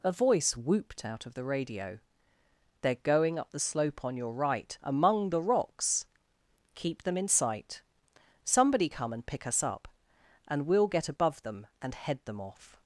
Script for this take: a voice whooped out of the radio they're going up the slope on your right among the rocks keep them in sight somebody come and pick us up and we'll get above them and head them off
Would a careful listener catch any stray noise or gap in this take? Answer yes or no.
no